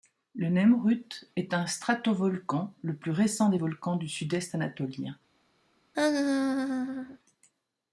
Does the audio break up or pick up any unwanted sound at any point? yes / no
yes